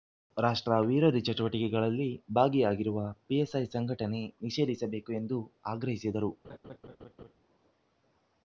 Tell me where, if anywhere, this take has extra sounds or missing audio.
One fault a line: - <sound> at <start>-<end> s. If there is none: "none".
- laugh at 6.4-7.3 s